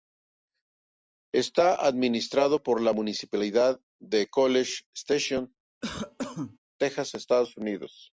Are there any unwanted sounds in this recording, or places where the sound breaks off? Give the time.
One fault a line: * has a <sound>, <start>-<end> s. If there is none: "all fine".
* has a cough, 5.8-6.6 s